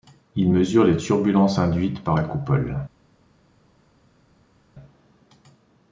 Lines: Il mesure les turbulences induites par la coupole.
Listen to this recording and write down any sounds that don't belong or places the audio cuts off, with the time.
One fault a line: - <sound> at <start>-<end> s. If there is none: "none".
none